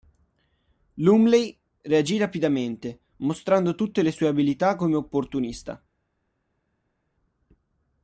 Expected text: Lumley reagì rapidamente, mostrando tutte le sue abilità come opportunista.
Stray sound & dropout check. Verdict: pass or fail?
pass